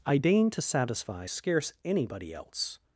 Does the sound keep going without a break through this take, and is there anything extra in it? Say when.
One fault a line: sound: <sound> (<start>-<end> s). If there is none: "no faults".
no faults